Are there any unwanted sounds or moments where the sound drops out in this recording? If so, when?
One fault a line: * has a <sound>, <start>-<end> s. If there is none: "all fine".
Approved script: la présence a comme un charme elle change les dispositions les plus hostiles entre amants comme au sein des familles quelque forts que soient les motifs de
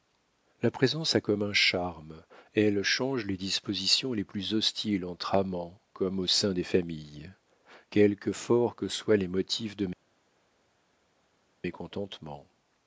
all fine